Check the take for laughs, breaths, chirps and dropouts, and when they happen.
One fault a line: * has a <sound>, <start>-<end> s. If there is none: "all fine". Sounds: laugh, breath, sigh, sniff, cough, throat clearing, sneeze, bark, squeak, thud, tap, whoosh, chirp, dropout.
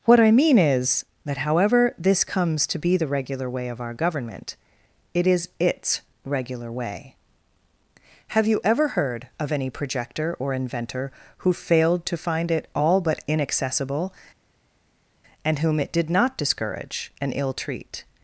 all fine